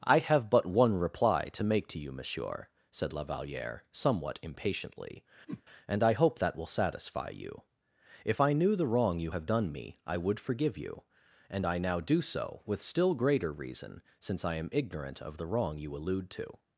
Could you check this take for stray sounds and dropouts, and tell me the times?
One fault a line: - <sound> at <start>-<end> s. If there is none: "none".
- whoosh at 5.5-5.6 s